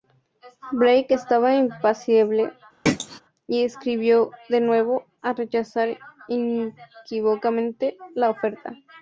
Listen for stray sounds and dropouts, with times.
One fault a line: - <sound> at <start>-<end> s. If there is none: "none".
- throat clearing at 2.9-3.2 s